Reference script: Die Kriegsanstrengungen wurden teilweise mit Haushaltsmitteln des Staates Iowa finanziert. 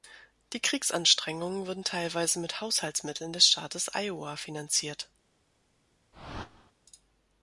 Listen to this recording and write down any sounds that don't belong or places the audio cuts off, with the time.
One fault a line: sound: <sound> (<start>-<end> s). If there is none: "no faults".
sound: whoosh (6.1-6.7 s)